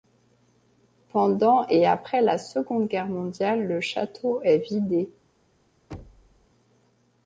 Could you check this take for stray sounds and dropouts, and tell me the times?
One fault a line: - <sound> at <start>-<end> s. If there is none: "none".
- thud at 5.9-6.5 s